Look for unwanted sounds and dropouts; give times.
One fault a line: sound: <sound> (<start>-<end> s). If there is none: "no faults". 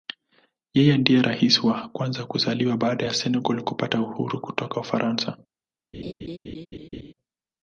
sound: laugh (5.9-7.1 s)